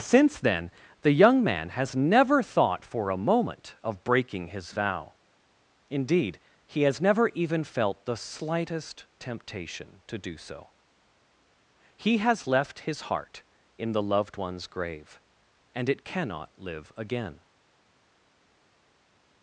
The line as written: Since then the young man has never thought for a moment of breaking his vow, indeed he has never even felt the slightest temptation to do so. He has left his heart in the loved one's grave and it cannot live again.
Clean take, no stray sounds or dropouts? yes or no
yes